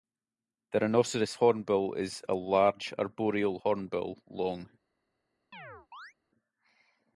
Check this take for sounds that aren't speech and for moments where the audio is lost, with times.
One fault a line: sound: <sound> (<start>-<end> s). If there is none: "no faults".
sound: chirp (5.5-6.1 s)